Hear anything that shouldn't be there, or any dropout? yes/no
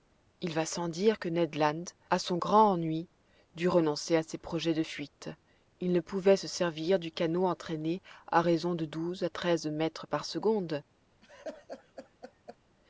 yes